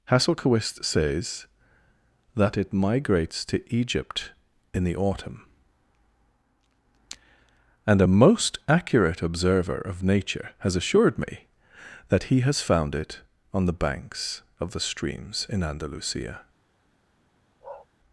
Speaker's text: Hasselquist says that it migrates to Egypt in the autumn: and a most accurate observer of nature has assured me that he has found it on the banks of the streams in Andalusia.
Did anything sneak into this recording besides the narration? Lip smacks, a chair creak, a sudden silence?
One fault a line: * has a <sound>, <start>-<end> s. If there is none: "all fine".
* has a bark, 17.6-17.9 s